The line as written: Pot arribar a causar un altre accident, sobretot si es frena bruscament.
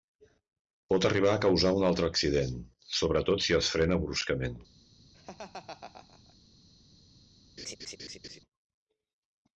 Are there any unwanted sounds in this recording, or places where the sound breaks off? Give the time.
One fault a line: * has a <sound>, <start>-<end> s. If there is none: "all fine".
* has a laugh, 5.1-6.4 s
* has a laugh, 7.6-8.4 s